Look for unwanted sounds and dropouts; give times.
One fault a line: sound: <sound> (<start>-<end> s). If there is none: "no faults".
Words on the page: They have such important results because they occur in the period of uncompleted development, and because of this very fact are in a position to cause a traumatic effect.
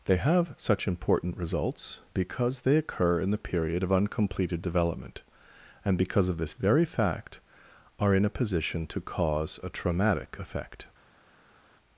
no faults